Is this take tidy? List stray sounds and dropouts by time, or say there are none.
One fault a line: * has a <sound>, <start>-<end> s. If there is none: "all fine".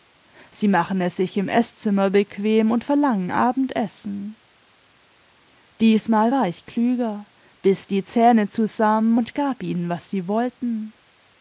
all fine